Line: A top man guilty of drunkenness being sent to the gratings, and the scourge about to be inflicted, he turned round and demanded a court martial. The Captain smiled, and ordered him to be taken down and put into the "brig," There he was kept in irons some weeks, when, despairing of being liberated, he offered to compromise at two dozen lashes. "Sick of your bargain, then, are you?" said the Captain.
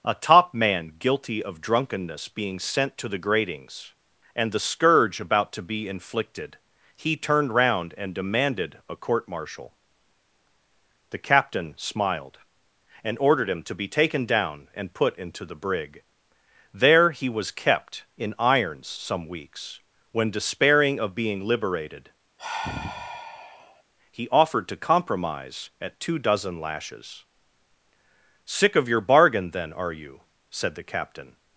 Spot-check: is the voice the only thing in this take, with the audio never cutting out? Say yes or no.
no